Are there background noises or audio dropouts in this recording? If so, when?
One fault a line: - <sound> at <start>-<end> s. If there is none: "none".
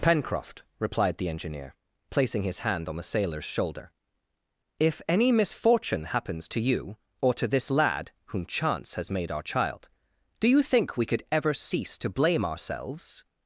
none